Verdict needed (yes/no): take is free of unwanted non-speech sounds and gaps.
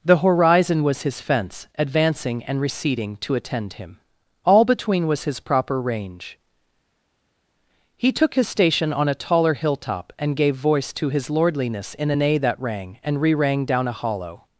yes